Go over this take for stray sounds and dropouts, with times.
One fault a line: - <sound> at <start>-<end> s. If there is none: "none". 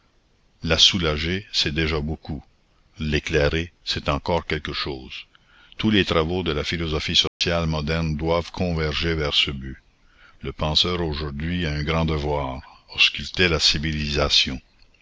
- dropout at 7.3-7.4 s